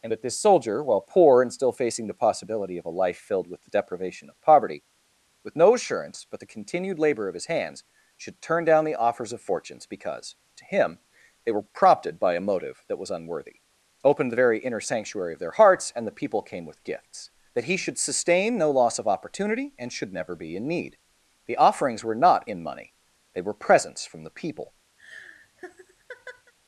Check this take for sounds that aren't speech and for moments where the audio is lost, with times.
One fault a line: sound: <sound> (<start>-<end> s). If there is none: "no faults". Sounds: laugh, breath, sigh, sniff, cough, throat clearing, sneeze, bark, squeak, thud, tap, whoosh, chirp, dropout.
sound: laugh (25.0-26.5 s)